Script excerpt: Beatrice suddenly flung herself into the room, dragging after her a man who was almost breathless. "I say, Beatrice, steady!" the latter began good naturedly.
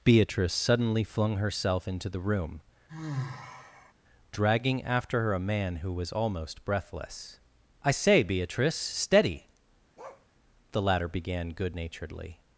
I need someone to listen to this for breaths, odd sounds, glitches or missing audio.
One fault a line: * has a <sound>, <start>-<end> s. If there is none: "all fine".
* has a sigh, 2.9-3.9 s
* has a bark, 10.0-10.3 s